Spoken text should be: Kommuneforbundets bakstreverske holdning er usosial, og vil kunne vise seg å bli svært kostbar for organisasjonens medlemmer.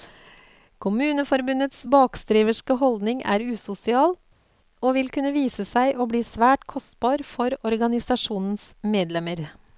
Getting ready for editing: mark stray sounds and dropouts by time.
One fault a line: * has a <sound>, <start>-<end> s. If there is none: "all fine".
all fine